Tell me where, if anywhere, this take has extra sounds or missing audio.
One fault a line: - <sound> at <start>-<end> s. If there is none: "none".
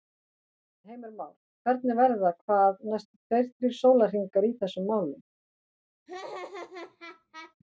- laugh at 6.1-7.5 s